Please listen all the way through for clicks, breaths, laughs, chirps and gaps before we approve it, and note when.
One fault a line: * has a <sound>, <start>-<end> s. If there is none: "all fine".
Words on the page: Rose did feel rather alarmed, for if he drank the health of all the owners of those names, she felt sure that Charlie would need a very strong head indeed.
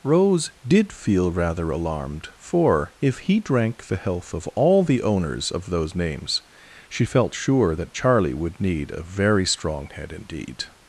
all fine